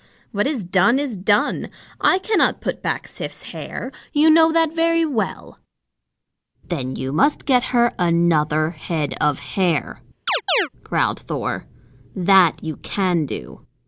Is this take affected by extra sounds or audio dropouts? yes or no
yes